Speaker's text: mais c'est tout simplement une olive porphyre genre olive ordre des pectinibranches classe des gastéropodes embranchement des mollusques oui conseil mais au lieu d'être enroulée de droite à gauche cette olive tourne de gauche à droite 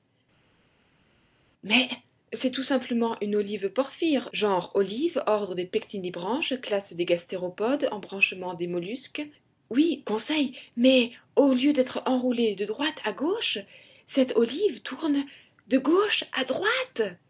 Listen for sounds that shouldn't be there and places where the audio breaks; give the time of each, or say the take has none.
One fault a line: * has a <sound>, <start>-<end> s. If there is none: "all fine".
all fine